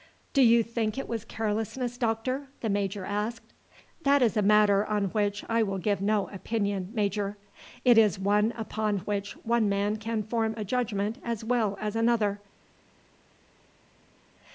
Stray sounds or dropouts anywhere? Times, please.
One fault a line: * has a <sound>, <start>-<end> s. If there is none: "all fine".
all fine